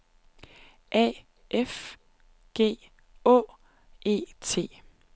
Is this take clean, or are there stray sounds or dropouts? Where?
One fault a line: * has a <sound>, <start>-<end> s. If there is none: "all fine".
all fine